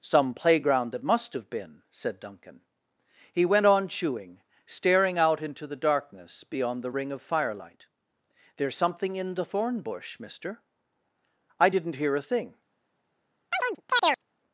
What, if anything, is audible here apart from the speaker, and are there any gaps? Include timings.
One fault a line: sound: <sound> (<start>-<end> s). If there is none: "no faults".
sound: chirp (13.5-14.2 s)